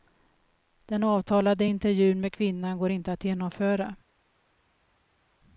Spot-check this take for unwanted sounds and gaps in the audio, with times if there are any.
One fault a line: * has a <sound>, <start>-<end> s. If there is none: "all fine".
all fine